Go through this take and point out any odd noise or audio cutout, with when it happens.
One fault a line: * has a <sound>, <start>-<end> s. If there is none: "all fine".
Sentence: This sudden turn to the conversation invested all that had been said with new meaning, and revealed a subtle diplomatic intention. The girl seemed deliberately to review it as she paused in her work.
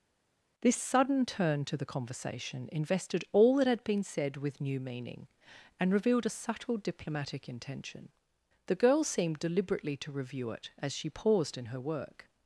all fine